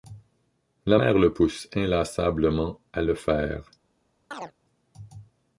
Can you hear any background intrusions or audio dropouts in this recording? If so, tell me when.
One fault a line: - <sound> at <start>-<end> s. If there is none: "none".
- chirp at 4.3-4.5 s